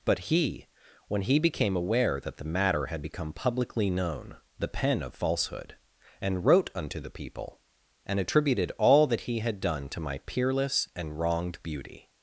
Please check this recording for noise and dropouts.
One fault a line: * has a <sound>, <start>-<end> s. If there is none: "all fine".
all fine